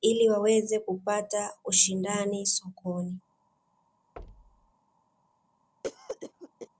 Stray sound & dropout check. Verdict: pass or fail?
fail